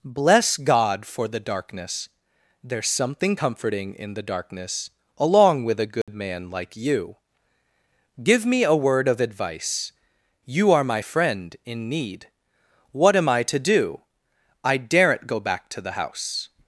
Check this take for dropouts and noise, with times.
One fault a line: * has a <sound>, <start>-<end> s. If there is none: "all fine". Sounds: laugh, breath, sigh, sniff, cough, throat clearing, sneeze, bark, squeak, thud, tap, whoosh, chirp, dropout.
* has a dropout, 6.0-6.1 s